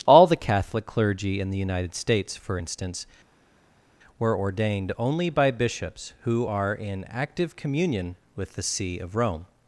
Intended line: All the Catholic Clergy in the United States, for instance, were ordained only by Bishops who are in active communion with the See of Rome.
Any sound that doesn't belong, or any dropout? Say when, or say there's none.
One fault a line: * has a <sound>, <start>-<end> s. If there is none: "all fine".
all fine